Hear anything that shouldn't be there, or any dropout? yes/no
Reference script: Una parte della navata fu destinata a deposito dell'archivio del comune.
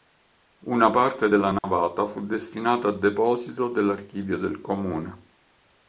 yes